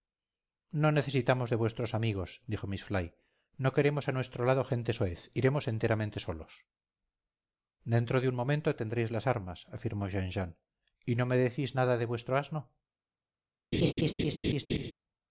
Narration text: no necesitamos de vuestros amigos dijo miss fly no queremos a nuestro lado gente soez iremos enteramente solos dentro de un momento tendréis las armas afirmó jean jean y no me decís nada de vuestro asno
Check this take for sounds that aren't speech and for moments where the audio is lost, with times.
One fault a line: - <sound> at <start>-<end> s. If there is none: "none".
- laugh at 13.7-14.9 s